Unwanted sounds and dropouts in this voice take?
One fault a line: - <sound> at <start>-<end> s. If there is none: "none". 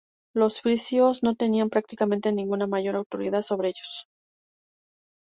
none